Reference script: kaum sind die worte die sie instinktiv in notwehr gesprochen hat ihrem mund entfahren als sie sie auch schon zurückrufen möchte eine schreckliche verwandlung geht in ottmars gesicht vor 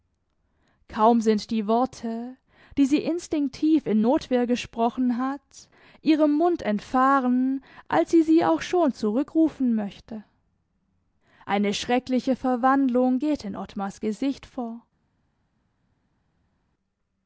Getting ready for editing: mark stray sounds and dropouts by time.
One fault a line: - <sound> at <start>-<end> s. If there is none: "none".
none